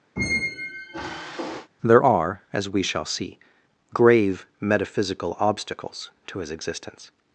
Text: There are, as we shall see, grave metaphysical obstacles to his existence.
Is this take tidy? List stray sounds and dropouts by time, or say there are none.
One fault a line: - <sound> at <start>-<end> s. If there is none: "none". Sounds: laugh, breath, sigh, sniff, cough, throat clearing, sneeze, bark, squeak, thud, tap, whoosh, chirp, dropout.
- squeak at 0.2-1.7 s